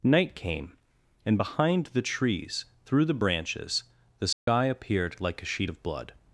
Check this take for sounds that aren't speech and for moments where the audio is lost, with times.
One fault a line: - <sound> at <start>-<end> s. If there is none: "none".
- dropout at 4.3-4.5 s